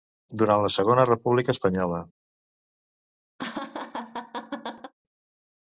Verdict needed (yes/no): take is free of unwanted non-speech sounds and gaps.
no